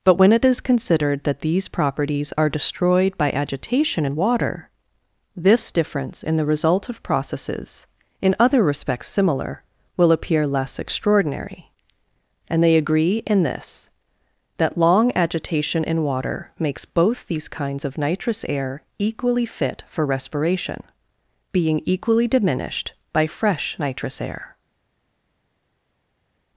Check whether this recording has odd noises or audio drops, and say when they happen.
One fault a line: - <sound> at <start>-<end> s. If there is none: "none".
none